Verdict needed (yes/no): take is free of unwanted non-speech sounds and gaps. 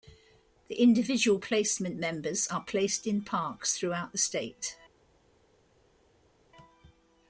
yes